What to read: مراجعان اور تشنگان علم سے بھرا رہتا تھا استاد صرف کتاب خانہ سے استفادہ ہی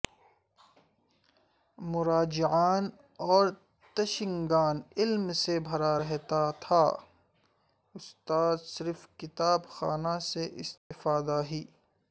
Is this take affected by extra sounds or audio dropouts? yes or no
yes